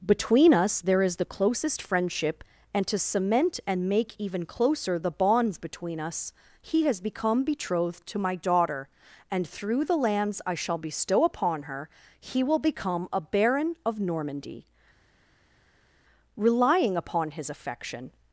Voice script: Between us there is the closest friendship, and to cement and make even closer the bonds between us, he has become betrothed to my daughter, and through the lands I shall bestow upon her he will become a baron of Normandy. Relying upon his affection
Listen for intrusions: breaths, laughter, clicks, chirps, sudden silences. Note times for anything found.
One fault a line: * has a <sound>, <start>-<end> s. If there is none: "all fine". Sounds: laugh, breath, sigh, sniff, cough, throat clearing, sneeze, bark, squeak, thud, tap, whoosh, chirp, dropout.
all fine